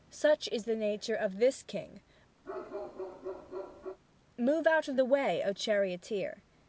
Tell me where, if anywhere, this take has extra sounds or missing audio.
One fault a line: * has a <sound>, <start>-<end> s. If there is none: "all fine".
* has a bark, 2.4-4.0 s